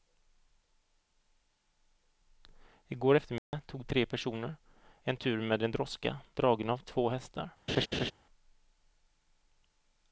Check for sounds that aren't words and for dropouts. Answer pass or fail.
fail